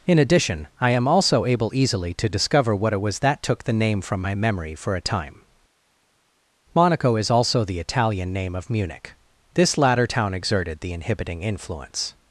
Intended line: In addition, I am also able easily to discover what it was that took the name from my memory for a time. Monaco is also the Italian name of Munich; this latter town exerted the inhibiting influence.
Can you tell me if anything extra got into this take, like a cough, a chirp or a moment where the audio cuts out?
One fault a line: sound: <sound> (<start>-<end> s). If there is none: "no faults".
no faults